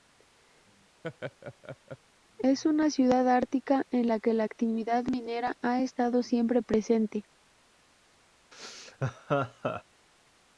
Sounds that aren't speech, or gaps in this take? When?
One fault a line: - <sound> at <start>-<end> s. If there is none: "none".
- laugh at 1.0-2.0 s
- laugh at 8.5-9.8 s